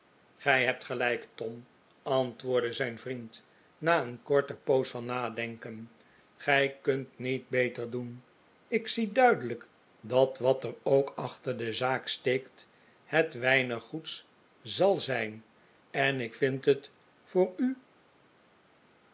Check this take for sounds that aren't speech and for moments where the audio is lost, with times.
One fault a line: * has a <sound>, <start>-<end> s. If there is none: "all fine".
all fine